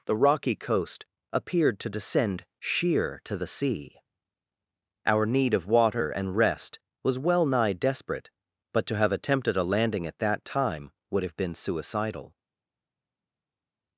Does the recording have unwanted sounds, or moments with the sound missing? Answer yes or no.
no